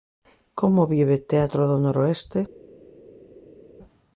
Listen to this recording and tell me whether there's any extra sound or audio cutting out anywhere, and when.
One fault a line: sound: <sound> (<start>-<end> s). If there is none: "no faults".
no faults